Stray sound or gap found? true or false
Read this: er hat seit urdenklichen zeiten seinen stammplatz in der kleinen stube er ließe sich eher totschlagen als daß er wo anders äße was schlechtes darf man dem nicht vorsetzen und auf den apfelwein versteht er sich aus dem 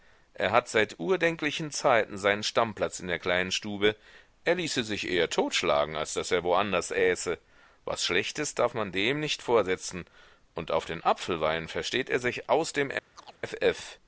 true